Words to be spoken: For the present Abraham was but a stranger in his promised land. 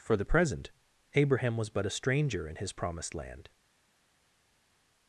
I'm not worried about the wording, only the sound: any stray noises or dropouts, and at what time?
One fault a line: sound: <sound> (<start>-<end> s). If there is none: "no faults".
no faults